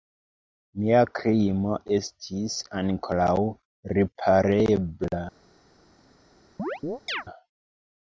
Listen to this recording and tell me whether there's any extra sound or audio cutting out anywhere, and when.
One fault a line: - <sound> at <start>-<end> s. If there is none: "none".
- chirp at 6.6-7.2 s